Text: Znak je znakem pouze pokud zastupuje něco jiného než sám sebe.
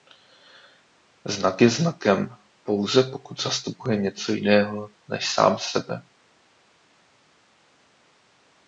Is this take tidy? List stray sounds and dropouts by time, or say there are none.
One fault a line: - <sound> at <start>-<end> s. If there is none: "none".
none